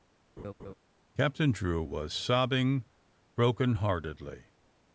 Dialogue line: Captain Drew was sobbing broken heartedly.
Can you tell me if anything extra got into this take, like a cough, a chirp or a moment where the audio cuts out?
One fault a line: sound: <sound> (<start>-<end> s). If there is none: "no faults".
sound: laugh (0.4-0.7 s)